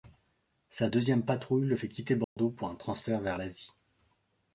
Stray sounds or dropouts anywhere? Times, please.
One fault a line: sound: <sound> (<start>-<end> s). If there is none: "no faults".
sound: dropout (2.2-2.4 s)